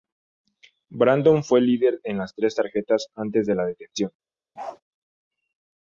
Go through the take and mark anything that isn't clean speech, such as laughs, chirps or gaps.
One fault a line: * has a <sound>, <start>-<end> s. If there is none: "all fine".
* has a bark, 4.6-4.8 s